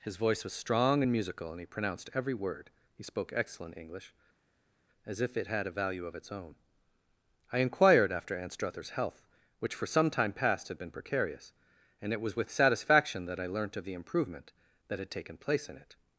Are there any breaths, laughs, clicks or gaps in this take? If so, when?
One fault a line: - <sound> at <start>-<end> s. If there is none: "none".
none